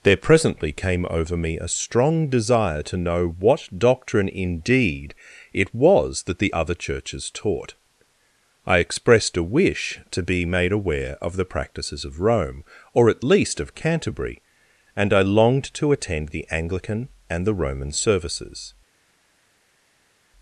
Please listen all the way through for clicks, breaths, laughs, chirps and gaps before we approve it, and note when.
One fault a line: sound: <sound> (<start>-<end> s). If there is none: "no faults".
no faults